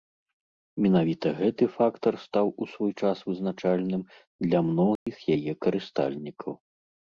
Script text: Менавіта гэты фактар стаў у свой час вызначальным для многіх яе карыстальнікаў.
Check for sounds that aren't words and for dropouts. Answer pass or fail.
fail